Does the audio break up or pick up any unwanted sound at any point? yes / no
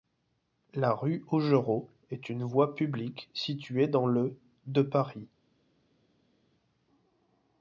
no